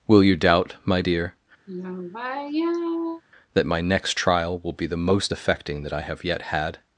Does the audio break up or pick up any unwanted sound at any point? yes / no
yes